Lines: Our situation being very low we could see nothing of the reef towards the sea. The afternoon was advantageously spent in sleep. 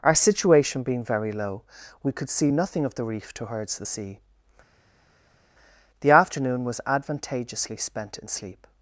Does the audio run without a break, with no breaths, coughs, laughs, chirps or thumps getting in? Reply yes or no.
yes